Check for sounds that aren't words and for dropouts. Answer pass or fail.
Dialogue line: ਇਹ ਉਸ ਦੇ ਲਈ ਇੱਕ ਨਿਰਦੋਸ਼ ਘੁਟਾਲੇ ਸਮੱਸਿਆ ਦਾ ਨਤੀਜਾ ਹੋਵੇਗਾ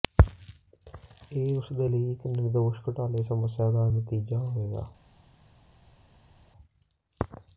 pass